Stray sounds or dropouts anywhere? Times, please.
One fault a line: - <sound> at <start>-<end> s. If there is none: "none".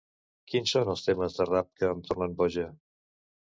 none